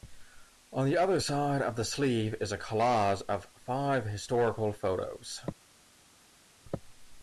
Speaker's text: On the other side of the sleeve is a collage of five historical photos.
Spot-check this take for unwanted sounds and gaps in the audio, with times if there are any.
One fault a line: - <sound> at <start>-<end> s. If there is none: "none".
none